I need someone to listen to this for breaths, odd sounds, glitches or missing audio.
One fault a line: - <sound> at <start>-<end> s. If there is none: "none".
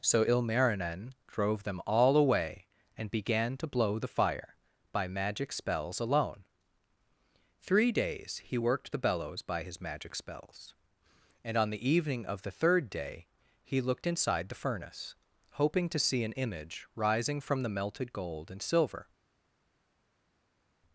none